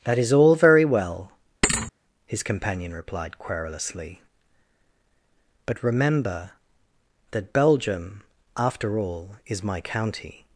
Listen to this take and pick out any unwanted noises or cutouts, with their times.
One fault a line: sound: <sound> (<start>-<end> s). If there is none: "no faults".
sound: thud (1.6-1.9 s)